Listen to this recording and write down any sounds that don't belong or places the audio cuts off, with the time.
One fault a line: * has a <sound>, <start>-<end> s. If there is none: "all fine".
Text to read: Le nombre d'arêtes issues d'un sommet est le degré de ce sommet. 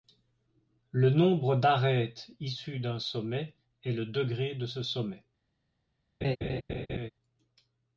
* has a laugh, 6.2-7.1 s